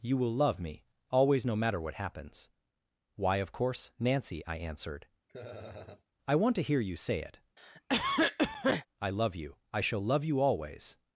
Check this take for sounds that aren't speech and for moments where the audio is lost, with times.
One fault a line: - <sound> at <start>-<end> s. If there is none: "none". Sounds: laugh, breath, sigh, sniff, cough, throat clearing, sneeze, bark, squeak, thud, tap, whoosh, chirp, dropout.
- laugh at 5.3-6.0 s
- cough at 7.6-8.9 s